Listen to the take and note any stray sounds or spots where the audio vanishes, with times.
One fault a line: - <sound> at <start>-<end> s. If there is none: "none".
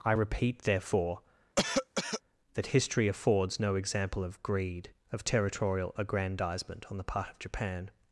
- cough at 1.6-2.2 s